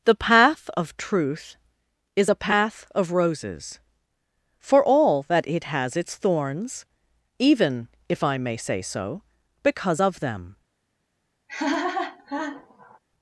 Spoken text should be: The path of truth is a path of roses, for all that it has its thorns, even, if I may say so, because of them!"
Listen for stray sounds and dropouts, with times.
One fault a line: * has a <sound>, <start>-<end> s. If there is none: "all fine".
* has a laugh, 11.5-13.0 s